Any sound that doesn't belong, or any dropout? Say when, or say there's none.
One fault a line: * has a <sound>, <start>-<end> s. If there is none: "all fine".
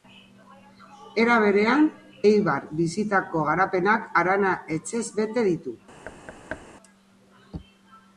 * has a thud, 6.0-6.7 s